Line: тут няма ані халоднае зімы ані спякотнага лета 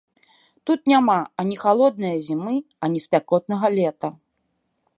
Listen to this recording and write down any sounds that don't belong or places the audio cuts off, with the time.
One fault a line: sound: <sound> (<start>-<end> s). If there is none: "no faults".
no faults